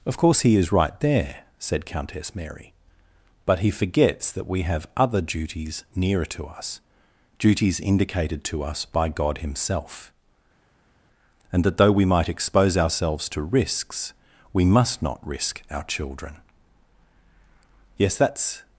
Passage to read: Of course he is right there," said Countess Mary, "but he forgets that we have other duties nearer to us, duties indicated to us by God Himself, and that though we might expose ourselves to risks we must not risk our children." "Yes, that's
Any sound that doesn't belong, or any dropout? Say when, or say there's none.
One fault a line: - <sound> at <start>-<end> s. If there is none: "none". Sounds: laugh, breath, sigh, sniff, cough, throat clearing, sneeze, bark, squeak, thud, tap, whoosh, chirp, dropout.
none